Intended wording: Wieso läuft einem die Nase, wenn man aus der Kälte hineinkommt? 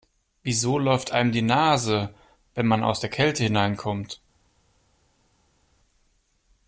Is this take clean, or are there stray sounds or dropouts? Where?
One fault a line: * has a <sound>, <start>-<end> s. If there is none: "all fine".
all fine